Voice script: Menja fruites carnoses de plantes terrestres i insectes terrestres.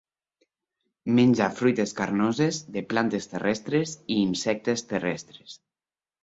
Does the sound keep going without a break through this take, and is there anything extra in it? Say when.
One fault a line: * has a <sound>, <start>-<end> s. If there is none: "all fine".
all fine